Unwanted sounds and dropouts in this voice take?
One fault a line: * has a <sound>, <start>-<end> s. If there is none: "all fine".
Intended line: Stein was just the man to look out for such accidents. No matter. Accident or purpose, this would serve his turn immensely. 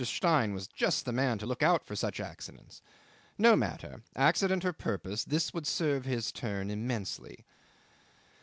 all fine